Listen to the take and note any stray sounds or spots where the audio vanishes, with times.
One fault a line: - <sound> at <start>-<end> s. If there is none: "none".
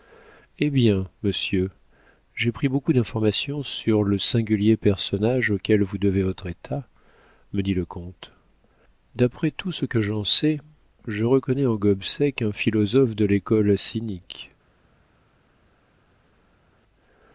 none